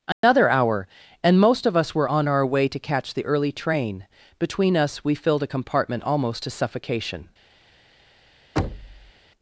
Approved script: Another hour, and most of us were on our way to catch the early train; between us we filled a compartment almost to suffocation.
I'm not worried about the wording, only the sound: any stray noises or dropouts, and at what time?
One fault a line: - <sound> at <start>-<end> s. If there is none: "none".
- dropout at 0.1-0.2 s
- thud at 8.6-9.1 s